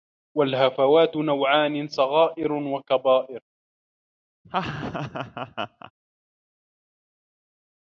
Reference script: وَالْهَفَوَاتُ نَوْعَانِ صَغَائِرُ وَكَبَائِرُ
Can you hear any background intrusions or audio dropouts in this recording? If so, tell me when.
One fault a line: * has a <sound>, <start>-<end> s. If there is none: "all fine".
* has a laugh, 4.4-5.9 s